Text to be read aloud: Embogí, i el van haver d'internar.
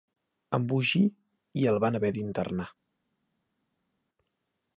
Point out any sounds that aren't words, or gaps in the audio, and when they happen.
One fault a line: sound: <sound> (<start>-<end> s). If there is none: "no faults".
no faults